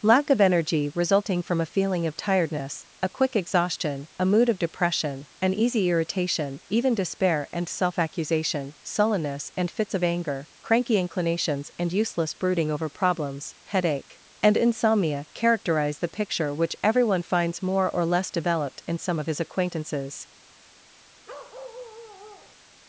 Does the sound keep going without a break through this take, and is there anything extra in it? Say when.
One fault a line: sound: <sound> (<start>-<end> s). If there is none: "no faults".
sound: bark (21.3-22.6 s)